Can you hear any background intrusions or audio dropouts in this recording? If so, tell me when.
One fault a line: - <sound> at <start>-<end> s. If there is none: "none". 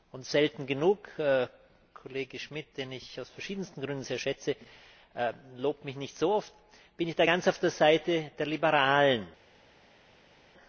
none